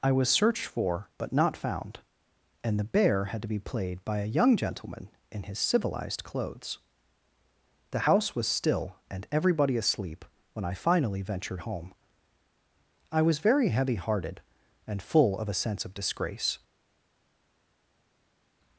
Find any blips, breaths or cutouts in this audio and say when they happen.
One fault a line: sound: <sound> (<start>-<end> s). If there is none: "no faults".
no faults